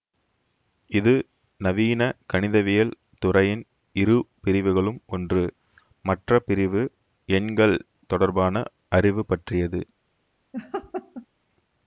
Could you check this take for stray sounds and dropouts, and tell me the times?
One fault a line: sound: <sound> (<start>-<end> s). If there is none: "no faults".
sound: laugh (10.5-11.3 s)